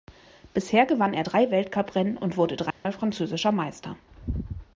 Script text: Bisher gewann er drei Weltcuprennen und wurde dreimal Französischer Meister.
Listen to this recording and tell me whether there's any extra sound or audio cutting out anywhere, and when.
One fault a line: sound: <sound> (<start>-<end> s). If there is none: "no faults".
sound: dropout (2.7-2.8 s)